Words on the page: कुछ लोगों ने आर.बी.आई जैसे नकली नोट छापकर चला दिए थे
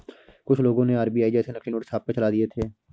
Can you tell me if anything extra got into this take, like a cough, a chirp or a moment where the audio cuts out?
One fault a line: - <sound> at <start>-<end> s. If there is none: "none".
none